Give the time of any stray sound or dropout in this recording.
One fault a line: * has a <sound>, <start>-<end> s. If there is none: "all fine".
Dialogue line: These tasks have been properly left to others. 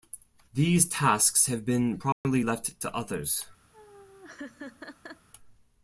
* has a dropout, 2.1-2.2 s
* has a laugh, 3.7-5.3 s